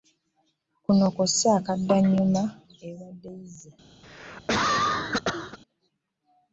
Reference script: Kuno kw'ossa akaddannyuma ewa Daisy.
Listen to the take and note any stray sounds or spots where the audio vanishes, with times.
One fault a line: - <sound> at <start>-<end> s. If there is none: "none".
- cough at 4.0-5.6 s